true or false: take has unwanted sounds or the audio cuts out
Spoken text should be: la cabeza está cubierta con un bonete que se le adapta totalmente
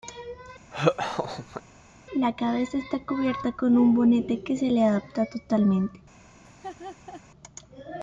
true